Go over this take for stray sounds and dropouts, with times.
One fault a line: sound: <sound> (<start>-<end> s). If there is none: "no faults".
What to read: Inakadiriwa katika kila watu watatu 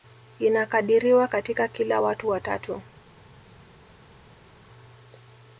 no faults